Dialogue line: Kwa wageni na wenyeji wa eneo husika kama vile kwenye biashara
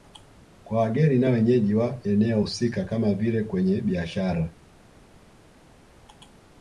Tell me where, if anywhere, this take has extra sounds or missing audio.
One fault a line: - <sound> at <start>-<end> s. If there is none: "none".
none